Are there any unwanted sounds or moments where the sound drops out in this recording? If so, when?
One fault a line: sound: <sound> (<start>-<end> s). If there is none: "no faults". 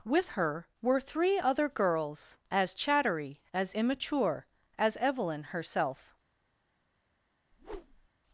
sound: whoosh (7.5-8.1 s)